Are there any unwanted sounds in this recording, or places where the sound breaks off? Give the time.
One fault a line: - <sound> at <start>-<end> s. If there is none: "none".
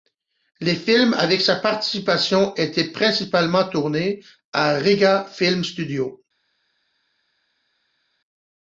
none